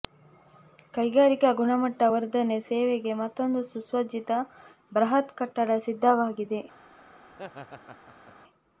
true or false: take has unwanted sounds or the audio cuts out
true